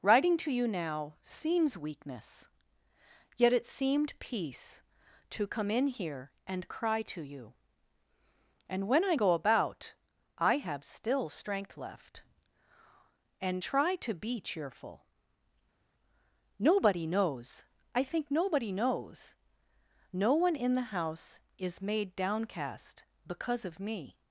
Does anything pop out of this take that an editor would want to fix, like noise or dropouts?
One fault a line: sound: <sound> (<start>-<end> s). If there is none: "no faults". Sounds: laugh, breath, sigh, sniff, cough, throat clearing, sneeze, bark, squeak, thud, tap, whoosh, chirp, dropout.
no faults